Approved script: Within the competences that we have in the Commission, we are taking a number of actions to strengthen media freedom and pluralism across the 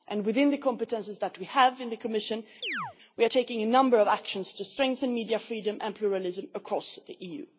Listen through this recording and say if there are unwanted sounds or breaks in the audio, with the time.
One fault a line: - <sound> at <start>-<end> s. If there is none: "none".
- chirp at 2.6-3.0 s